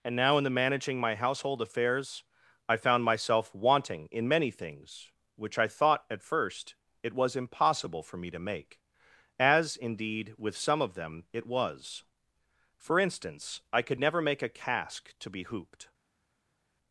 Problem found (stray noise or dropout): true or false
false